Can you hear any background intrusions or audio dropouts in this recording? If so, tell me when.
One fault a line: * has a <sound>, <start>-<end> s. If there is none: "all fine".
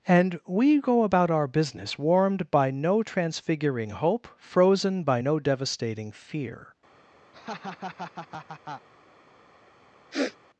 * has a laugh, 7.3-8.9 s
* has a sniff, 10.1-10.4 s